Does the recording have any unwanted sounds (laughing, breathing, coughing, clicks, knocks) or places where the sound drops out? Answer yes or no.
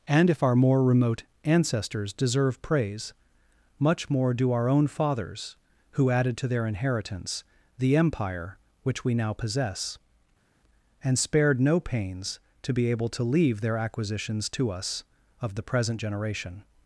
no